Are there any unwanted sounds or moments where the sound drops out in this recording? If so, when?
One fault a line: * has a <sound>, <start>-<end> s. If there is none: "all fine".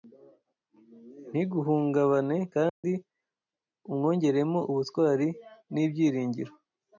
* has a dropout, 2.7-2.8 s